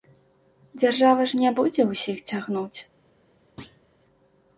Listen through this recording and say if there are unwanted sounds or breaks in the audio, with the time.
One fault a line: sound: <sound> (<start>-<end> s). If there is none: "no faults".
sound: thud (3.6-3.8 s)